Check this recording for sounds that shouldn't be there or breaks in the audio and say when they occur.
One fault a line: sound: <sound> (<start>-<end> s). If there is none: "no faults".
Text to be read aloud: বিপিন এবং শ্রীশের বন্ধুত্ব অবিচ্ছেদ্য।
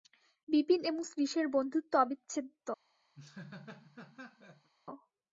sound: laugh (3.1-4.7 s)